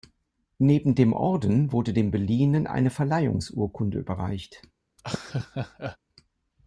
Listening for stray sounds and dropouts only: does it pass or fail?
fail